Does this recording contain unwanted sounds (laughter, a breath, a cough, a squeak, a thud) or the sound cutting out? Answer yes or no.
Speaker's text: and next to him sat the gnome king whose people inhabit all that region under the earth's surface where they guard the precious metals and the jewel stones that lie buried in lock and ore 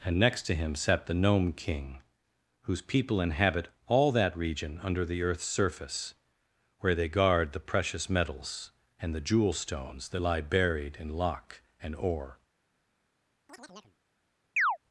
yes